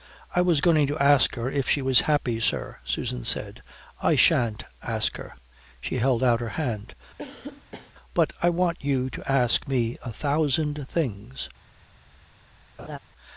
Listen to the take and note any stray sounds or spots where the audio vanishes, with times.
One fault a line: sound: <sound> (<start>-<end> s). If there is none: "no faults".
sound: cough (7.2-7.9 s)
sound: laugh (12.8-13.0 s)